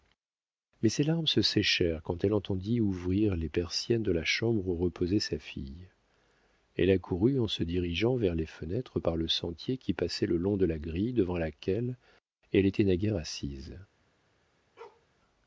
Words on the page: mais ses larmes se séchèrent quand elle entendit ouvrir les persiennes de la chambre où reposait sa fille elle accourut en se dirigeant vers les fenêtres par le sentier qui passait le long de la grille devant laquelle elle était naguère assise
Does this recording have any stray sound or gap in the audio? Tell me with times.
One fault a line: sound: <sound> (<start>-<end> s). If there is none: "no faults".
sound: bark (14.8-15.1 s)